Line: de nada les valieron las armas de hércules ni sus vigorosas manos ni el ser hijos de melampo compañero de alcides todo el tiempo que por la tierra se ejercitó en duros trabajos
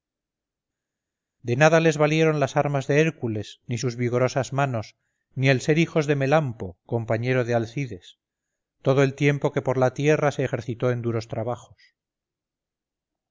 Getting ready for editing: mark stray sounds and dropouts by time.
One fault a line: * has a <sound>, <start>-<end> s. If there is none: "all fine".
all fine